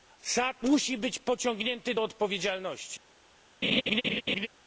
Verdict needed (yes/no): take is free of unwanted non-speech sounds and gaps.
no